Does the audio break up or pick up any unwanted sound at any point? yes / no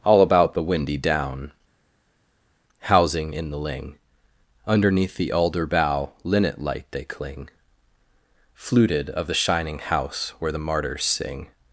no